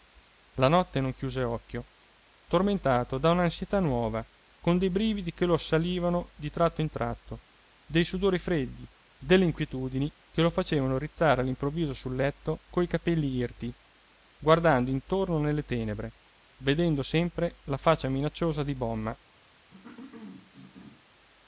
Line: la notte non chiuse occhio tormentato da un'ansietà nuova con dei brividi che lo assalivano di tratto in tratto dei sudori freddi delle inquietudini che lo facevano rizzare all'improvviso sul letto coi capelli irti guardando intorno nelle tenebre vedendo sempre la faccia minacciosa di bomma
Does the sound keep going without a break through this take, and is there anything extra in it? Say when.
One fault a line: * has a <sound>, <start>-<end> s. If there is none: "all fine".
* has a cough, 19.7-21.1 s